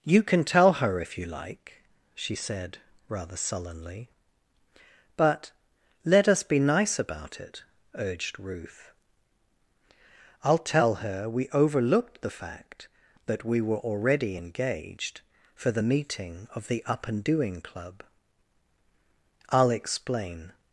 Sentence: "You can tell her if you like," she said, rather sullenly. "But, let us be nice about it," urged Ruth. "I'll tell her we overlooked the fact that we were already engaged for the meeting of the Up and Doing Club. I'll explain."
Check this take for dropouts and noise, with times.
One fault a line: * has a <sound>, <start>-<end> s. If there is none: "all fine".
all fine